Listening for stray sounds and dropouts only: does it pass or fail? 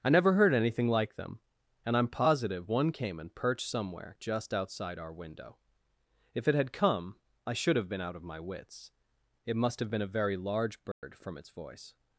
fail